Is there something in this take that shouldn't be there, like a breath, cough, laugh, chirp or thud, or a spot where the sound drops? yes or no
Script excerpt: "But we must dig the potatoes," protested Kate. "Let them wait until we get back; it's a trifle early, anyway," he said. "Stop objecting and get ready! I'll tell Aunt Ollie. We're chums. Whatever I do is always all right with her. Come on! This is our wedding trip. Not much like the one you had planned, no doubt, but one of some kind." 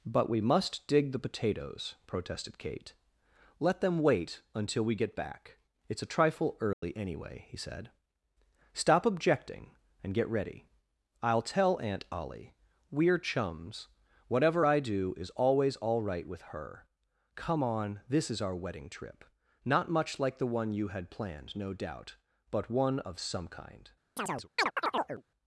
yes